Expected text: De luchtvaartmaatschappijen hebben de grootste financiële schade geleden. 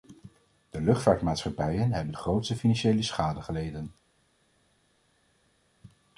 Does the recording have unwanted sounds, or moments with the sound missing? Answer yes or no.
no